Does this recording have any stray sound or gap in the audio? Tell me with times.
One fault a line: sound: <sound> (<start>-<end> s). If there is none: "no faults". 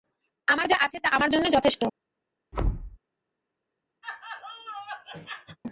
sound: thud (2.5-3.0 s)
sound: laugh (4.0-5.6 s)